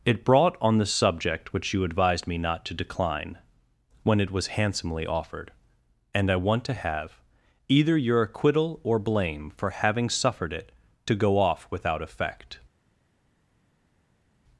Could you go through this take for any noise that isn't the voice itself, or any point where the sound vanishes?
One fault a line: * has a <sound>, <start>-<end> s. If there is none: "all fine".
all fine